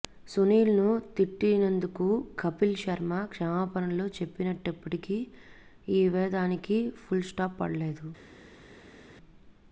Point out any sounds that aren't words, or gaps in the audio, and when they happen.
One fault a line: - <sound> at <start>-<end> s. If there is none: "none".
none